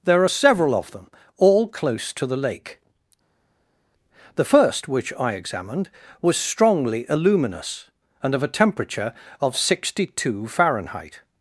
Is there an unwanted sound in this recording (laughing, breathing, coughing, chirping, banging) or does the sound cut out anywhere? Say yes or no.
no